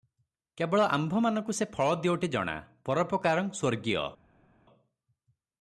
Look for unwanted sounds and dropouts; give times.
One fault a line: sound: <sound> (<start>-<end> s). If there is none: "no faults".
no faults